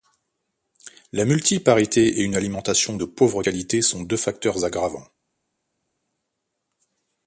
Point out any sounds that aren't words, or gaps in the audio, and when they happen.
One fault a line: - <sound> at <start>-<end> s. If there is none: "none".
none